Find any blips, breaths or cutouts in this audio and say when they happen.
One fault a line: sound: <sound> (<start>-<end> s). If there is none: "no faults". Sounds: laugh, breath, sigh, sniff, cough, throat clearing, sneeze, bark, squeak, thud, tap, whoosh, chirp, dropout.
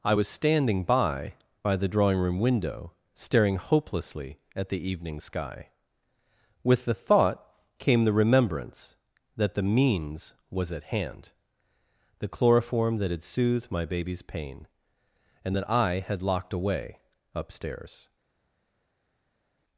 no faults